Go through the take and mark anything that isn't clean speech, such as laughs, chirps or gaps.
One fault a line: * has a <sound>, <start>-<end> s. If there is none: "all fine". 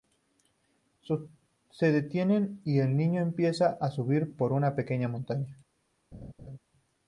* has a laugh, 6.1-6.6 s